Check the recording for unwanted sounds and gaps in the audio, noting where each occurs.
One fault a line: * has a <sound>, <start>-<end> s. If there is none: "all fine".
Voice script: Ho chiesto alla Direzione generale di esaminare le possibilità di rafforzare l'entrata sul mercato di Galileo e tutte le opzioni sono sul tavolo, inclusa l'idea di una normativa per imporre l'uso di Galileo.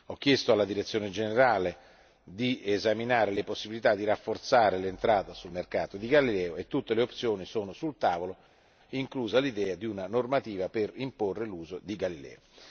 all fine